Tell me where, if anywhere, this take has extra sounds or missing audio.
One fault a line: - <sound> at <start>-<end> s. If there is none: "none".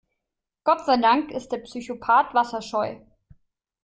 none